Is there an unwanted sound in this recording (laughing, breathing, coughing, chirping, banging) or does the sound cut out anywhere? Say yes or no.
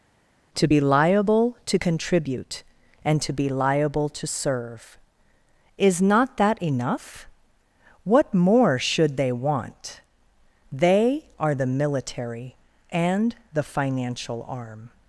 no